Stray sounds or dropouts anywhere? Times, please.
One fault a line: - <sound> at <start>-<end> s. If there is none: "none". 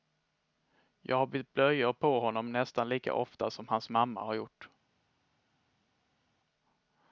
none